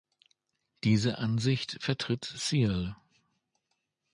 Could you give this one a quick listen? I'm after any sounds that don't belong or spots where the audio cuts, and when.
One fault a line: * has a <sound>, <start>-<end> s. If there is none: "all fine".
all fine